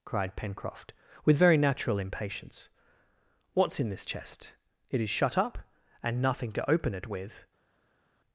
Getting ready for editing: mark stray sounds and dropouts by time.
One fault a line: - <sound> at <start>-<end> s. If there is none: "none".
none